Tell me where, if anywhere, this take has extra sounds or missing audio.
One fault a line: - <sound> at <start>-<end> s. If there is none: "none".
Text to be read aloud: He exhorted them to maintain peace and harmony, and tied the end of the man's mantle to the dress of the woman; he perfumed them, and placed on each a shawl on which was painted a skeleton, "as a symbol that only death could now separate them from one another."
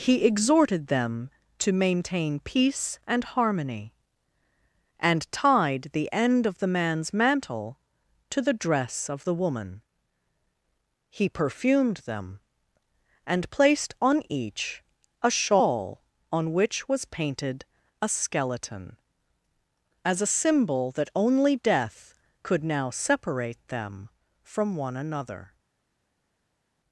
none